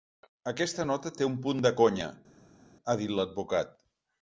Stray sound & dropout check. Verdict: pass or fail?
pass